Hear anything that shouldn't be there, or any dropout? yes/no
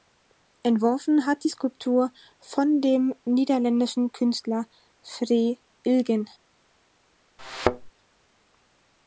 yes